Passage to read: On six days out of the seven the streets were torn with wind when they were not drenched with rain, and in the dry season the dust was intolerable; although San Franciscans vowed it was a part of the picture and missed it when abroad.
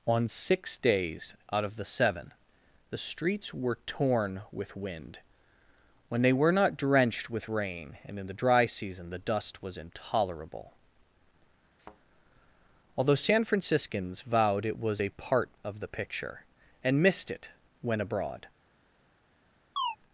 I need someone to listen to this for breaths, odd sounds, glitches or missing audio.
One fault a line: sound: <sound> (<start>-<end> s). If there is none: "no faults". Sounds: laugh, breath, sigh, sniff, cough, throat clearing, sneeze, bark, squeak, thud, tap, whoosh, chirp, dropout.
sound: thud (11.8-12.0 s)
sound: chirp (19.8-20.0 s)